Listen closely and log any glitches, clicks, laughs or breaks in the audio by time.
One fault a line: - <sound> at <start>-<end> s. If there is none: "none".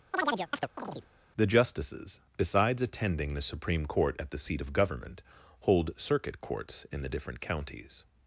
- chirp at 0.1-1.1 s